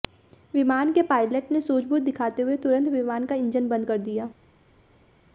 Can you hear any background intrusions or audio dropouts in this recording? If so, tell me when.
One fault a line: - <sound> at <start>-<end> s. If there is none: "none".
none